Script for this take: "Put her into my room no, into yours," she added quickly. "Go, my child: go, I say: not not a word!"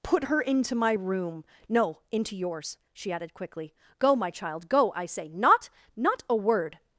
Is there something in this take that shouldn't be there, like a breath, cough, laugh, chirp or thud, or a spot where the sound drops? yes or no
no